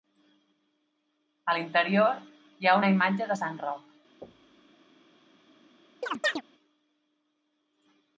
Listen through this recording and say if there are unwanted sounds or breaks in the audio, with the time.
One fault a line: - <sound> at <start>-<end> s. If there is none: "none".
- thud at 4.2-4.7 s
- chirp at 6.0-6.4 s